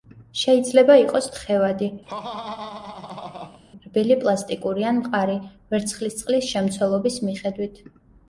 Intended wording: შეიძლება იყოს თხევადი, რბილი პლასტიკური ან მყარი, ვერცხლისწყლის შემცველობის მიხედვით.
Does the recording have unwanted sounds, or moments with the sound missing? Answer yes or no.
yes